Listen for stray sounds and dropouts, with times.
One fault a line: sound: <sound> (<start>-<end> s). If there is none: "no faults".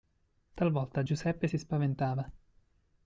no faults